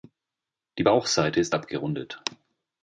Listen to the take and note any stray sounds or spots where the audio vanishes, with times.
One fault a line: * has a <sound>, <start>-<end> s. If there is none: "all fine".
all fine